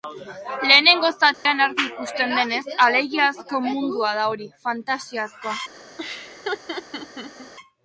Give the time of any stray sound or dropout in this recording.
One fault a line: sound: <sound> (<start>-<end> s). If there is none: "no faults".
sound: dropout (1.3-1.5 s)
sound: laugh (6.0-7.5 s)